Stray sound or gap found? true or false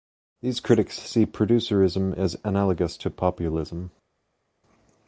false